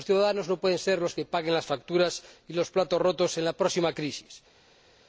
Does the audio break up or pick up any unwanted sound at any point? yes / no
no